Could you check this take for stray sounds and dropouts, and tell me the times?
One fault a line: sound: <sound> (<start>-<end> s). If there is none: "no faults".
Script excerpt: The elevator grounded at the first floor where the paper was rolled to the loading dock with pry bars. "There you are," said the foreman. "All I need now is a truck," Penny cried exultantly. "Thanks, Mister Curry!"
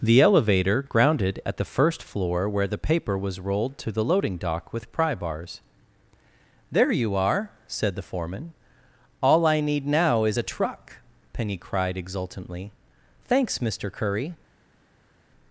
no faults